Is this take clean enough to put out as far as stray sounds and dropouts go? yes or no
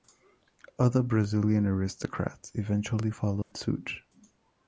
no